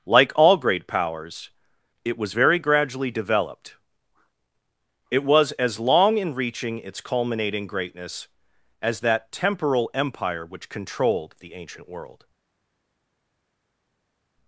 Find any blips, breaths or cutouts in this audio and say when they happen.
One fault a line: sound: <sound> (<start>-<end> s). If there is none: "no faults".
no faults